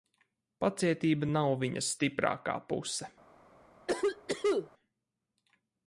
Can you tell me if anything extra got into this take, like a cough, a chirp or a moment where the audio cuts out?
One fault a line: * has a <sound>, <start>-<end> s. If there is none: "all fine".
* has a cough, 3.9-4.7 s